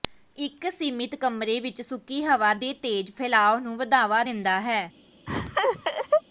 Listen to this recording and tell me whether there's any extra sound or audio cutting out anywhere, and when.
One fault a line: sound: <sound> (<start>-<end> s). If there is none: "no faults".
sound: laugh (5.3-6.2 s)